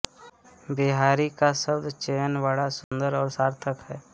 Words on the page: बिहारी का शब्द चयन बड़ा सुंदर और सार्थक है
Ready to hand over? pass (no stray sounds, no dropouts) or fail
fail